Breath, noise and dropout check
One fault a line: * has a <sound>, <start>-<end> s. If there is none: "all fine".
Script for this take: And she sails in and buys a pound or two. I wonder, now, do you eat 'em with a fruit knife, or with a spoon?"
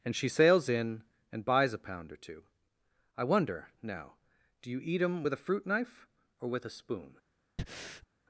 * has a breath, 7.6-8.1 s